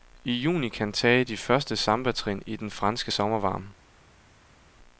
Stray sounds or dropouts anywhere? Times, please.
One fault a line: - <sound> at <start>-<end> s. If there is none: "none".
none